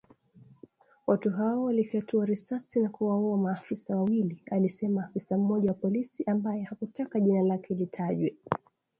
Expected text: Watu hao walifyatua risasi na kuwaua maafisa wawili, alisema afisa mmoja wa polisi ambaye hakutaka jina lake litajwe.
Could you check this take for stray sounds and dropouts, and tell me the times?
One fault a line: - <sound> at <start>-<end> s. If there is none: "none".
none